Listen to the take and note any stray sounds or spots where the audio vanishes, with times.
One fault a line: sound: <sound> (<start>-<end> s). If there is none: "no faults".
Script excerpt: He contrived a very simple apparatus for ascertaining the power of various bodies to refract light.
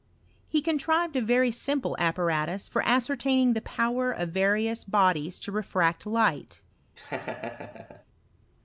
sound: laugh (7.0-8.0 s)